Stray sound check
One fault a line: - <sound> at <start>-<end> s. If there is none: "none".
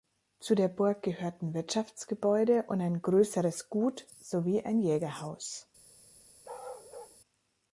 - bark at 6.4-7.2 s